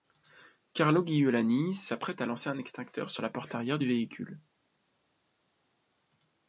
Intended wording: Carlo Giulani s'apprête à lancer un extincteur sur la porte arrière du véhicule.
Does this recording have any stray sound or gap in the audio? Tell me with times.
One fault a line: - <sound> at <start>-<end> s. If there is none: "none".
none